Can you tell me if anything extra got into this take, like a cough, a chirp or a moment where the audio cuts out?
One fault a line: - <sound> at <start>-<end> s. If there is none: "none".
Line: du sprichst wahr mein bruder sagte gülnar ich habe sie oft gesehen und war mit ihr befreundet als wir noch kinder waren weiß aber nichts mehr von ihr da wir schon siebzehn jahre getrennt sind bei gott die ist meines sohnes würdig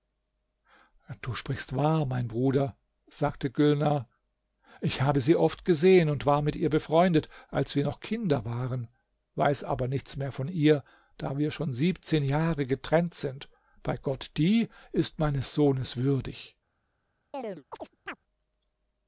- chirp at 17.3-18.2 s